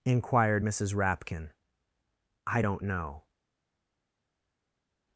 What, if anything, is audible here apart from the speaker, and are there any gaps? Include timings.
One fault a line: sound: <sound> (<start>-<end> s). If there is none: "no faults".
no faults